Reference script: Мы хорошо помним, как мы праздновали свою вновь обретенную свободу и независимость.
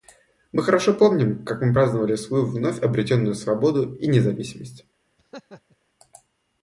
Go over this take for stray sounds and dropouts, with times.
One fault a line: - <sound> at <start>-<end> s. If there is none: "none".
- laugh at 5.2-5.8 s